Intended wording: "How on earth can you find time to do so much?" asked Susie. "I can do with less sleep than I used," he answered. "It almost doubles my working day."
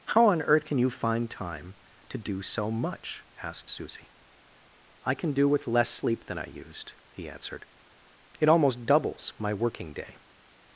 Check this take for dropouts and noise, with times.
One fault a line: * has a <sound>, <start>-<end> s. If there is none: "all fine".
all fine